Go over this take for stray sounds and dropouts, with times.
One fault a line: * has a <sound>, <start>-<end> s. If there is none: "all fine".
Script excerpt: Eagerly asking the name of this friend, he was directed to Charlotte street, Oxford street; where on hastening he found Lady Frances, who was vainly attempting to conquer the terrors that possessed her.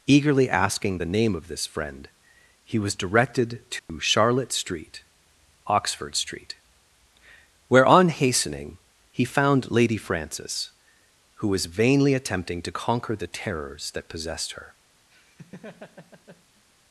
* has a dropout, 3.8-3.9 s
* has a laugh, 15.1-16.7 s